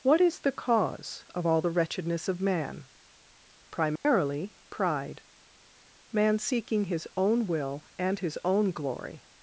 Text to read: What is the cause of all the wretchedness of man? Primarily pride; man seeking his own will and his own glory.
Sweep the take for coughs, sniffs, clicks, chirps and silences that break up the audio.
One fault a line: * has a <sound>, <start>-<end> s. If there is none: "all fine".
* has a dropout, 4.0-4.0 s